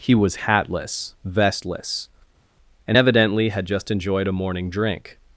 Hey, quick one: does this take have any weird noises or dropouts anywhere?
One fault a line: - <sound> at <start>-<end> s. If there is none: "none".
none